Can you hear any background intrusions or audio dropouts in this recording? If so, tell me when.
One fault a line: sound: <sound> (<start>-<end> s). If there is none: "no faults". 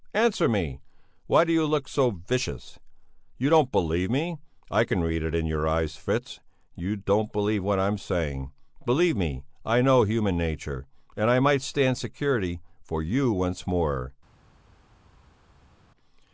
no faults